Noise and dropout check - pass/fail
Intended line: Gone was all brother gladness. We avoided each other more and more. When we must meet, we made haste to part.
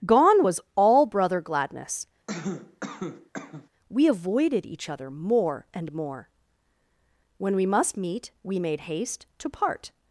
fail